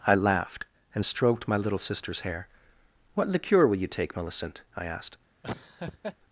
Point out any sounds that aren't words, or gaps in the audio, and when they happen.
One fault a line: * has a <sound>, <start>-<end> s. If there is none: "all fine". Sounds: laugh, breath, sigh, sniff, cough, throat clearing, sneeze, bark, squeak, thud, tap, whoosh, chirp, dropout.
* has a laugh, 5.4-6.2 s